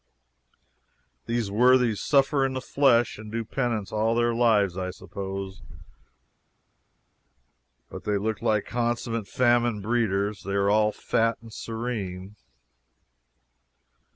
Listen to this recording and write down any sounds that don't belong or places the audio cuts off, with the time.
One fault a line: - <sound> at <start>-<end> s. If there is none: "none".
none